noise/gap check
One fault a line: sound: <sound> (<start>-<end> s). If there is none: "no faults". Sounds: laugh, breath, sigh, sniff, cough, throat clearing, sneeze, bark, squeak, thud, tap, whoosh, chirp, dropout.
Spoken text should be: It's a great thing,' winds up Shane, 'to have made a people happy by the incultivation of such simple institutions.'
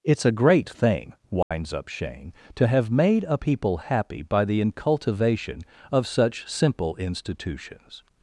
sound: dropout (1.4-1.5 s)